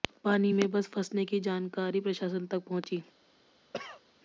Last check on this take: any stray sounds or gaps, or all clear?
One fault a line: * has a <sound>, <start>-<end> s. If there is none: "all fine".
* has a cough, 3.7-4.0 s